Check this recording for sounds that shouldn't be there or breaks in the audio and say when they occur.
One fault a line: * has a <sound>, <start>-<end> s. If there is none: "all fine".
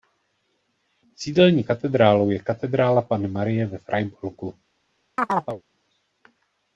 * has a chirp, 5.2-5.6 s